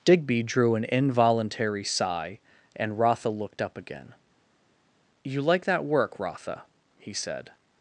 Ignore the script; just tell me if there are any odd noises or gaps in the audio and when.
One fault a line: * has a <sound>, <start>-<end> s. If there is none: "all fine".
all fine